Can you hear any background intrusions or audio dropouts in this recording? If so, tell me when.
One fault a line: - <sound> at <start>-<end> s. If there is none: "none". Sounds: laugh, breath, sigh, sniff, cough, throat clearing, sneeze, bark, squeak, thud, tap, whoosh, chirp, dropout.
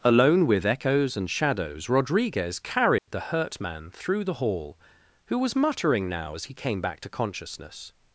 - dropout at 3.0-3.1 s